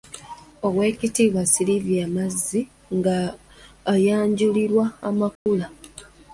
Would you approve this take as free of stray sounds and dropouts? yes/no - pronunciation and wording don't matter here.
no